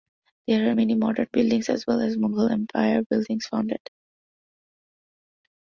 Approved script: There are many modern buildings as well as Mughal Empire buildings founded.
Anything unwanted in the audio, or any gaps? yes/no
no